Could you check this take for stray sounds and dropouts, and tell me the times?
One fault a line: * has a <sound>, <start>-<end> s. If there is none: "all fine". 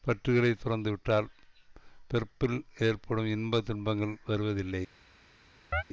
* has a chirp, 5.7-5.8 s